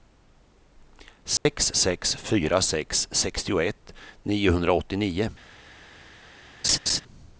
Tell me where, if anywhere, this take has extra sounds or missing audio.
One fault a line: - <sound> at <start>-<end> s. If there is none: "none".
- dropout at 1.4-1.5 s
- laugh at 6.6-7.0 s